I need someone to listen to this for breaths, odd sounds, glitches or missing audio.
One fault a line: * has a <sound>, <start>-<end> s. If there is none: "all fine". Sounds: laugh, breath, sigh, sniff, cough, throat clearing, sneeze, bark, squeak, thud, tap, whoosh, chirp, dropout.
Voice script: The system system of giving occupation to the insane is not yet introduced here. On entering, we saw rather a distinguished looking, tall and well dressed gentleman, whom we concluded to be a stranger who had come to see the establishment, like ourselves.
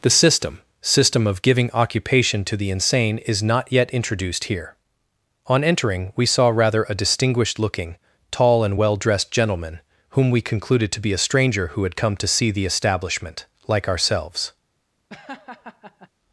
* has a laugh, 15.1-16.1 s